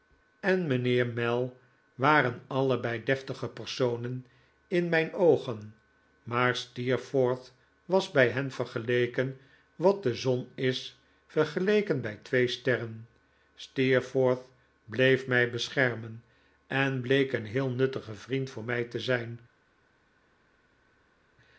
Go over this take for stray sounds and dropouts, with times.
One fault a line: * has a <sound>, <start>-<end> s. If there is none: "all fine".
all fine